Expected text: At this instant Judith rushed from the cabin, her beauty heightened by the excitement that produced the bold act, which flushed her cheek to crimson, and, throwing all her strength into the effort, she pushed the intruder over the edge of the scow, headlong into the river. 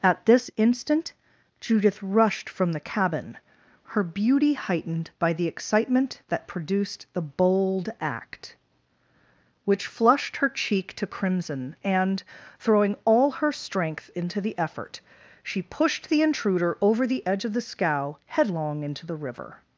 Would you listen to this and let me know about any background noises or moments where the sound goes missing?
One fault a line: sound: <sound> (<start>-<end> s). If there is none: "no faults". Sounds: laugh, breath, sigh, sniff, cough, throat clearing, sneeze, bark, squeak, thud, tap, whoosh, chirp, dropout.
no faults